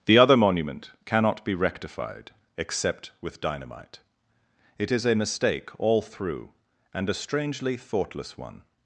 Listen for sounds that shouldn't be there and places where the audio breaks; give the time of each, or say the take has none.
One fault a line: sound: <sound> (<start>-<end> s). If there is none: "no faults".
no faults